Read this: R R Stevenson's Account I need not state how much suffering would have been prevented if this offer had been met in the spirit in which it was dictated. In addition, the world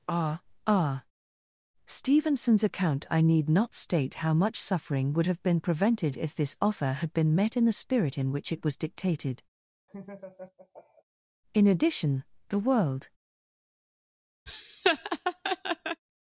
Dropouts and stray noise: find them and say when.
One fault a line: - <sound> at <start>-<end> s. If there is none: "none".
- laugh at 9.9-11.0 s
- laugh at 14.5-16.0 s